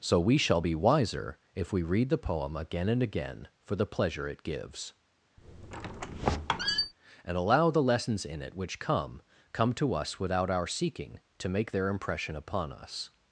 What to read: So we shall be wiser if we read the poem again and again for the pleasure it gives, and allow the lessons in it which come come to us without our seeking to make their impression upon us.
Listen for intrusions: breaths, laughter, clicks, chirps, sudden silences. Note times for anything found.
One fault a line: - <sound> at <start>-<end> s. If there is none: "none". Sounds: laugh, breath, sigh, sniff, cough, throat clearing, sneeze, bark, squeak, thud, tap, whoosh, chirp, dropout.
- squeak at 5.4-6.9 s